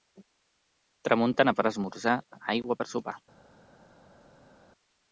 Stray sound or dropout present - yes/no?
no